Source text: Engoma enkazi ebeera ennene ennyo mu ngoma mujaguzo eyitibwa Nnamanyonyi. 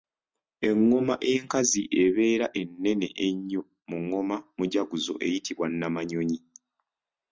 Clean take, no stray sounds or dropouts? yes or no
yes